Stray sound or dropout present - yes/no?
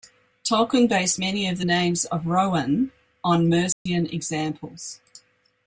yes